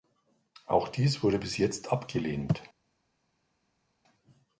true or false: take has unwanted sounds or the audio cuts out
false